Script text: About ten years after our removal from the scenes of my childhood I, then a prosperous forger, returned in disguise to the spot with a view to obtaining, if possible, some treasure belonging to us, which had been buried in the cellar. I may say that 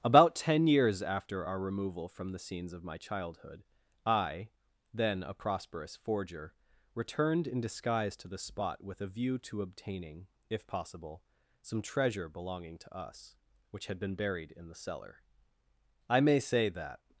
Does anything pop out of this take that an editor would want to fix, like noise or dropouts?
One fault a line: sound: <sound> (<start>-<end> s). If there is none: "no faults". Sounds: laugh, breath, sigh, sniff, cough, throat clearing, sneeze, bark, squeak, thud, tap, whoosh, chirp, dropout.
no faults